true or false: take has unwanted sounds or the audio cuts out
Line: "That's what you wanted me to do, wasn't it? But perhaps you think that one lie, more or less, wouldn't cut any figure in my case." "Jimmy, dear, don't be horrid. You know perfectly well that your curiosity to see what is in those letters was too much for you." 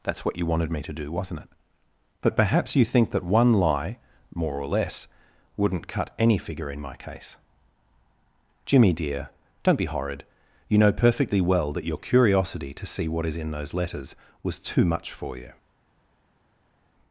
false